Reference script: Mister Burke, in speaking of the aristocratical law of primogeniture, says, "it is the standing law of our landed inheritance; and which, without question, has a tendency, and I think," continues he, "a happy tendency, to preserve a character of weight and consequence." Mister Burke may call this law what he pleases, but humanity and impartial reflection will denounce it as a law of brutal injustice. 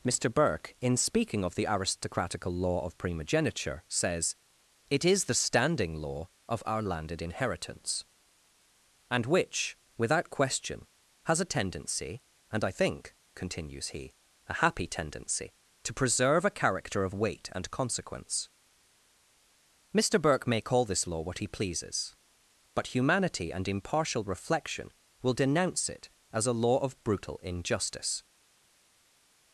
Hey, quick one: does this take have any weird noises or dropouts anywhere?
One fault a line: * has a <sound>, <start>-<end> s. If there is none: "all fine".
all fine